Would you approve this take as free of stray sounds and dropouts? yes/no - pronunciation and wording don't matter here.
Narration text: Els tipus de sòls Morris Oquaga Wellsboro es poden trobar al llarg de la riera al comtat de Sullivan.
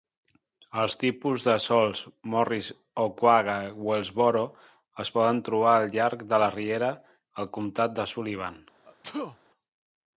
no